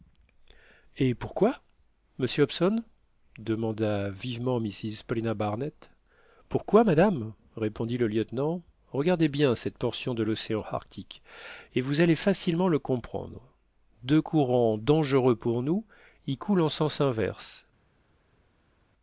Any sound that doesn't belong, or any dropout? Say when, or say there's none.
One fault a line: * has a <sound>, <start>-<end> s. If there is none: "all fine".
all fine